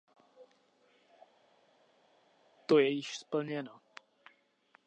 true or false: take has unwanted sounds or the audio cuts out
false